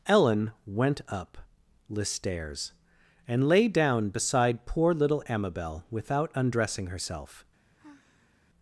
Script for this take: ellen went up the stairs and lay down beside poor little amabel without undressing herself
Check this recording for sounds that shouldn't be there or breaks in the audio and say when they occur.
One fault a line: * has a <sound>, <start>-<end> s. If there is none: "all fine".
* has a sigh, 7.8-8.4 s